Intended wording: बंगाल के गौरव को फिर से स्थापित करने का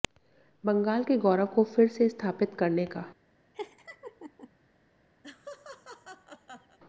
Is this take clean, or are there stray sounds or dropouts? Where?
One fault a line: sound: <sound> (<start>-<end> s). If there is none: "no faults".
sound: laugh (3.5-4.5 s)
sound: laugh (5.2-6.8 s)